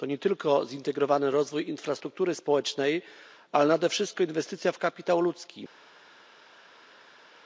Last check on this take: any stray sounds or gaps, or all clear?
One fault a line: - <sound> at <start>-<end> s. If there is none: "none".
none